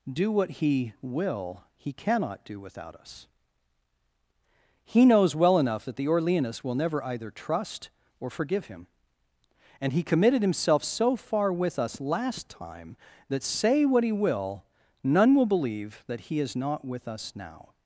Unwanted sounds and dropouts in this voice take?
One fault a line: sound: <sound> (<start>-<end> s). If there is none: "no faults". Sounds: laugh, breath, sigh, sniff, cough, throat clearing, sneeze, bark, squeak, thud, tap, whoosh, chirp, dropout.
no faults